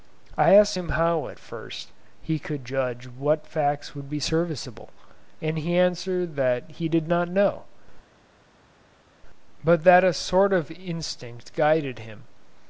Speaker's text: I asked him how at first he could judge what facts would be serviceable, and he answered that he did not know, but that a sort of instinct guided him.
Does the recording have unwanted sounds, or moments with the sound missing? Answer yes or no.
no